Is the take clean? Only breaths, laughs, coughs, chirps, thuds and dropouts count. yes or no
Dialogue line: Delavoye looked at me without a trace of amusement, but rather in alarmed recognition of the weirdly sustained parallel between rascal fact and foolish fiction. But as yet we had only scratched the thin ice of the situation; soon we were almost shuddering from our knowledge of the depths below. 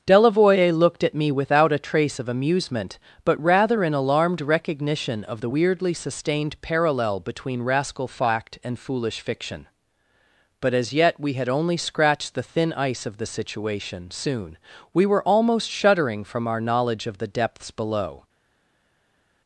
yes